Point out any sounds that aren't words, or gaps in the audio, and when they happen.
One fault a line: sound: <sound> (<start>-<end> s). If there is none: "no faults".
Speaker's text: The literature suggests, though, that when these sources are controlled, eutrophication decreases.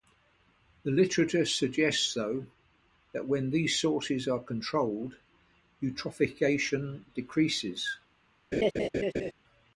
sound: laugh (8.5-9.3 s)